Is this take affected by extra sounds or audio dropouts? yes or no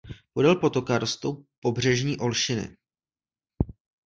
no